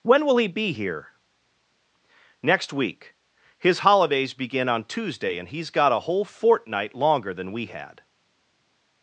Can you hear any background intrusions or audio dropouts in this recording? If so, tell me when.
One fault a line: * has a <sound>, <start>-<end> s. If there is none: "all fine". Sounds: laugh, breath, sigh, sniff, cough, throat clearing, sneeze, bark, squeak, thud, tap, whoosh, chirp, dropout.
all fine